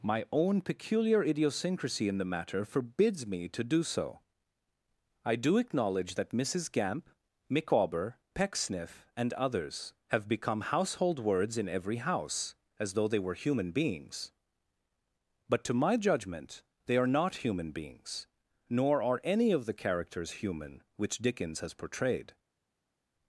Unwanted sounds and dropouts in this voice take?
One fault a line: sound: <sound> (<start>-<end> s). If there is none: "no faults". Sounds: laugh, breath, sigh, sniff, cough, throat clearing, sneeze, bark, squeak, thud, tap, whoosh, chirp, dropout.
no faults